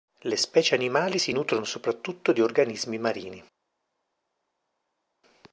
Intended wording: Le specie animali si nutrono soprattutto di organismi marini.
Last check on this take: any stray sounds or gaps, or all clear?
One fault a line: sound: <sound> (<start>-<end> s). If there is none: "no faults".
no faults